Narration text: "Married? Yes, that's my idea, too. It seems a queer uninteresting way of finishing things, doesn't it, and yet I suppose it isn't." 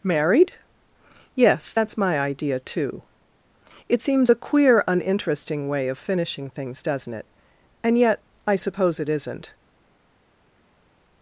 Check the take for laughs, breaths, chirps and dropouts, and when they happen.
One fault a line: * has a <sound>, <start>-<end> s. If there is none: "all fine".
all fine